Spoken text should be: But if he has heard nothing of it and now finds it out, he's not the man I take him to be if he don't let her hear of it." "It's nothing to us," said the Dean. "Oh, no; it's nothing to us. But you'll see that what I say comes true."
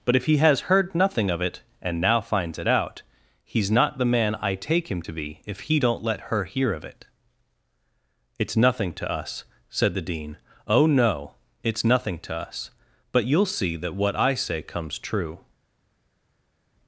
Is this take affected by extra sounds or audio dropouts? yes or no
no